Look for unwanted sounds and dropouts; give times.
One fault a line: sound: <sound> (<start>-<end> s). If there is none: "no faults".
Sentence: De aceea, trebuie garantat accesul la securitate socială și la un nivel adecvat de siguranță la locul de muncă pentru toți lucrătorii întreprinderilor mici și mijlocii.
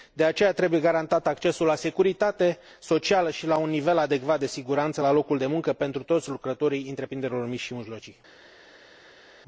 no faults